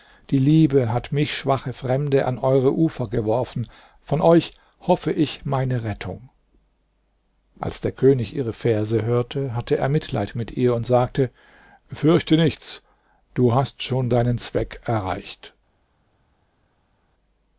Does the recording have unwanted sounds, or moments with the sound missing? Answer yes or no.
no